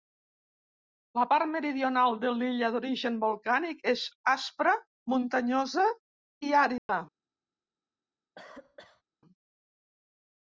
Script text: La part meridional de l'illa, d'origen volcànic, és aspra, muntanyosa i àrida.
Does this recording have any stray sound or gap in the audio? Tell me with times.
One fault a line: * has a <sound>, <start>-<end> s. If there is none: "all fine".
* has a dropout, 6.8-6.9 s
* has a cough, 8.4-9.0 s